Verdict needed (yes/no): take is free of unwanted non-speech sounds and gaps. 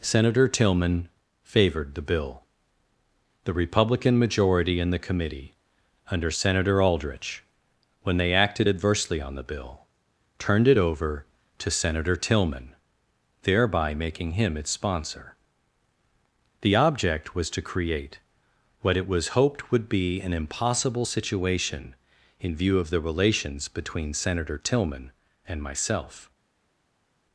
yes